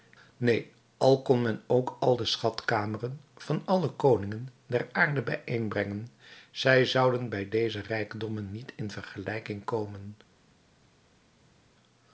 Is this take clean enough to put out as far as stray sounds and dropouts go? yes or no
yes